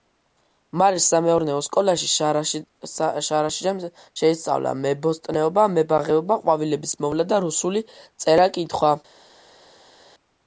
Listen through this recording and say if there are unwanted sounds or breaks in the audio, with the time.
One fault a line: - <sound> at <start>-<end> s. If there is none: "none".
none